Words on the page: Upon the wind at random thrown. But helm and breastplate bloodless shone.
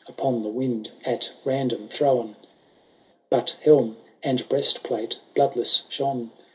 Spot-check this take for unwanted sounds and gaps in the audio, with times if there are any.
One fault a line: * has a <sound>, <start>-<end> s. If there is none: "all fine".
all fine